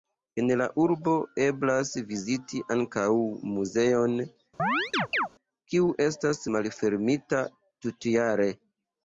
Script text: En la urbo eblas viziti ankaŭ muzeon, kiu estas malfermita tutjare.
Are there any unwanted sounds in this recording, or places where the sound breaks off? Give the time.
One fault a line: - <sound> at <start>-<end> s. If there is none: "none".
- chirp at 4.6-5.3 s